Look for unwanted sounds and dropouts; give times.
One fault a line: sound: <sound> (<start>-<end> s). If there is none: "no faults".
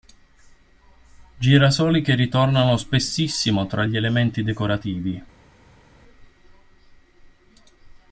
no faults